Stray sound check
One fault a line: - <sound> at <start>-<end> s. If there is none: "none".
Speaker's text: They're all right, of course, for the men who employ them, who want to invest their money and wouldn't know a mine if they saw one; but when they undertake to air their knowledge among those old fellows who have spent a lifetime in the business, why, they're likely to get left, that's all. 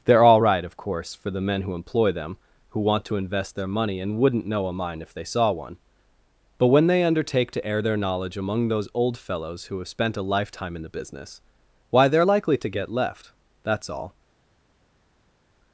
none